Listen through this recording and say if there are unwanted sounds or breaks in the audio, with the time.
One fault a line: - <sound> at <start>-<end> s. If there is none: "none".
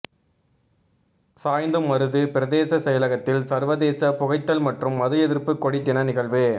none